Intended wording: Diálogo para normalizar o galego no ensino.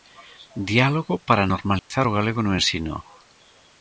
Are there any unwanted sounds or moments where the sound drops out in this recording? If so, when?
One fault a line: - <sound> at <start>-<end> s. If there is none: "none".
- dropout at 1.8-1.9 s